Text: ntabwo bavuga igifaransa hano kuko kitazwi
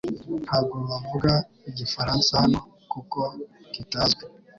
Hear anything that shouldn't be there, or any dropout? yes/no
no